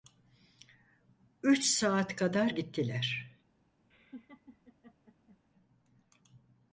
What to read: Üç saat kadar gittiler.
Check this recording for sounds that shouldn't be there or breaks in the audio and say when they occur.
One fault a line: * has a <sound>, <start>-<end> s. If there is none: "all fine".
* has a laugh, 3.9-5.4 s